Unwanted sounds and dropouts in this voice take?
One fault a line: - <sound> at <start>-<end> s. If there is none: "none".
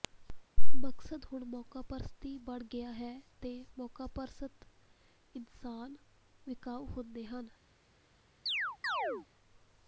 - chirp at 8.5-9.3 s